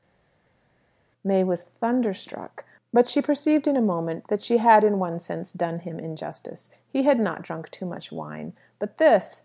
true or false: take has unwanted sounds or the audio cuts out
false